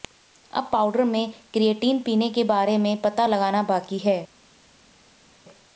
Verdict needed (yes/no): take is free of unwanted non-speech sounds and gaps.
yes